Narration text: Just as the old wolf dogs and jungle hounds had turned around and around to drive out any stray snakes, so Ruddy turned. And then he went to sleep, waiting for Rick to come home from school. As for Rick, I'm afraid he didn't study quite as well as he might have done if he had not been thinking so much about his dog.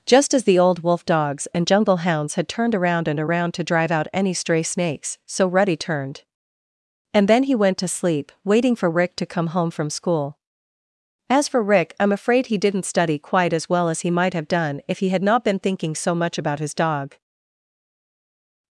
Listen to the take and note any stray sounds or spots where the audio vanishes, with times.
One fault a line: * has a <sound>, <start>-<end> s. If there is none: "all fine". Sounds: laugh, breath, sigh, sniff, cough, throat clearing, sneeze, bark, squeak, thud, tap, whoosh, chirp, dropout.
all fine